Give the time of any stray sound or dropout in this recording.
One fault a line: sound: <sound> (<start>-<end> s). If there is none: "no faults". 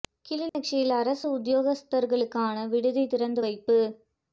sound: dropout (0.5-0.5 s)